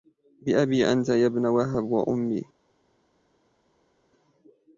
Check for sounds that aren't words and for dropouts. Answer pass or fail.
pass